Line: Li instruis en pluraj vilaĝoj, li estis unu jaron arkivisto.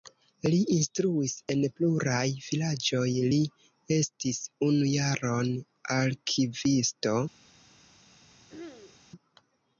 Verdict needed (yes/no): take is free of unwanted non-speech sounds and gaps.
no